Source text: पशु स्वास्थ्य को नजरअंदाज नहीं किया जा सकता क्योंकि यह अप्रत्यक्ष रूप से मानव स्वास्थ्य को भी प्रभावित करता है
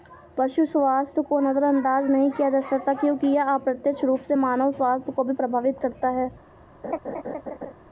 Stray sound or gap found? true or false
true